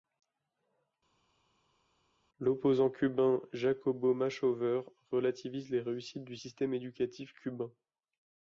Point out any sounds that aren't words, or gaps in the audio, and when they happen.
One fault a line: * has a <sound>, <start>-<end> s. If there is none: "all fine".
all fine